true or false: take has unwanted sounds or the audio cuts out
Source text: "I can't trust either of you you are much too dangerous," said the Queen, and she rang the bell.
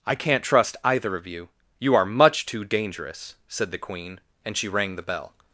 false